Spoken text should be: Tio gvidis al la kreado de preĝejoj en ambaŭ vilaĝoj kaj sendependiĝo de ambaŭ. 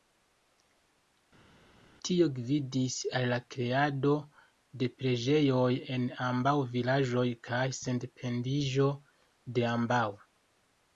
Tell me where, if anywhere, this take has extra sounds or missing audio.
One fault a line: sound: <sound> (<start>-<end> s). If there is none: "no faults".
no faults